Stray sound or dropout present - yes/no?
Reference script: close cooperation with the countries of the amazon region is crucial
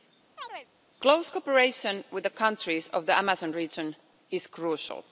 yes